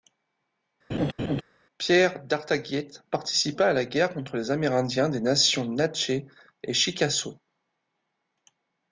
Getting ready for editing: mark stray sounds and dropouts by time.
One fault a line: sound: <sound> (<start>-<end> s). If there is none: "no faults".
sound: laugh (0.9-1.4 s)